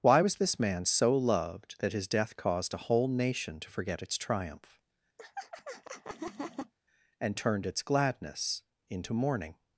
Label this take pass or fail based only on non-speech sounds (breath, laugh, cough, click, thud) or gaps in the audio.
fail